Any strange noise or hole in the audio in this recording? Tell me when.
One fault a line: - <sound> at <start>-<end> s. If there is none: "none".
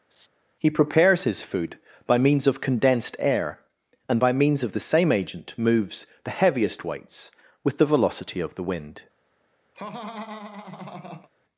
- laugh at 0.1-0.3 s
- laugh at 9.7-11.3 s